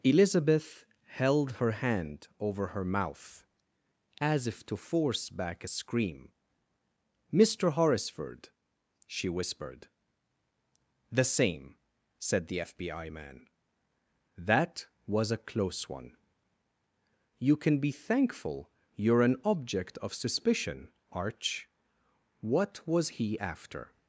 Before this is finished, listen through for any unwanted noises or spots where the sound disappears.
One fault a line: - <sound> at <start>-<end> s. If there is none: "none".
none